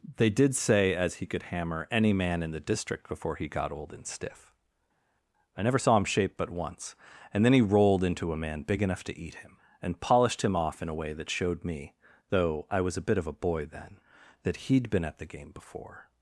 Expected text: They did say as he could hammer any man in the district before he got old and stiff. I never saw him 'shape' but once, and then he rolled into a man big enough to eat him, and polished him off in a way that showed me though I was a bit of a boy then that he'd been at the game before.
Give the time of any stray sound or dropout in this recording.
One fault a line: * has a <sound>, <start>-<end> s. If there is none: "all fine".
all fine